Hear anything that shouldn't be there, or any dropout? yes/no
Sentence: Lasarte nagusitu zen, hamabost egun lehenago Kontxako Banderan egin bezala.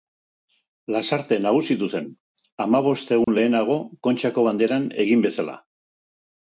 yes